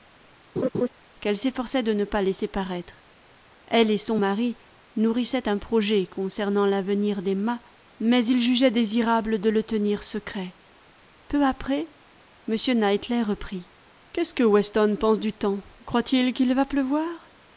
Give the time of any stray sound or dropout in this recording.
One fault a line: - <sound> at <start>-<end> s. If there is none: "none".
- laugh at 0.6-0.9 s